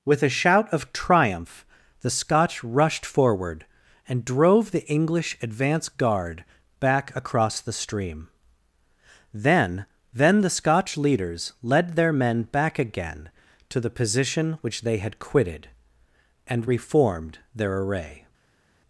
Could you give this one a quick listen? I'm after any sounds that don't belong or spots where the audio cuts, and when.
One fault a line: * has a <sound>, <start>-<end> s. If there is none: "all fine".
all fine